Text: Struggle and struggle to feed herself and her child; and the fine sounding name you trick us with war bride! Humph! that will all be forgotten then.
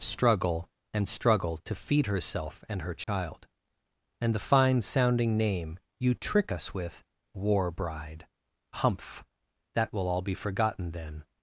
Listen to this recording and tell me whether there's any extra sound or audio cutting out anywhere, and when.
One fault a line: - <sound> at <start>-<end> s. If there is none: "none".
- dropout at 3.0-3.1 s